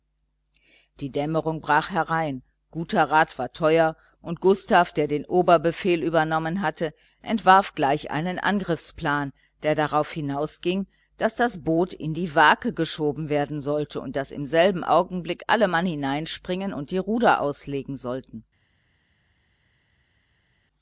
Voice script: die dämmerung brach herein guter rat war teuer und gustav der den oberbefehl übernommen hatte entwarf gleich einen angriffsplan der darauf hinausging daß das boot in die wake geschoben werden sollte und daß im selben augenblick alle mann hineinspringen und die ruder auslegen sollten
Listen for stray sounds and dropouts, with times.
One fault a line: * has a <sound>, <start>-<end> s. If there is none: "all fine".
all fine